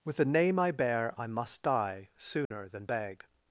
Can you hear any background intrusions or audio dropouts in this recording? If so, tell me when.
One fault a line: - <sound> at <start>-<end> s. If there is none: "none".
- dropout at 2.4-2.5 s